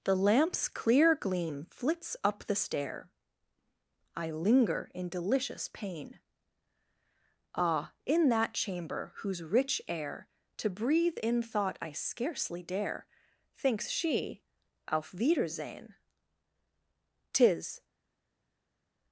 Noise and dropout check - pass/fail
pass